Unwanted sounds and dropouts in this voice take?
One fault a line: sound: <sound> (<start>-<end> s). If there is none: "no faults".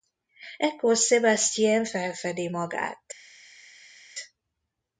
no faults